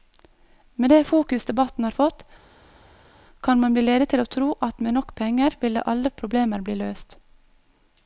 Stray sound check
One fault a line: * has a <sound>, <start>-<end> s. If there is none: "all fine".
all fine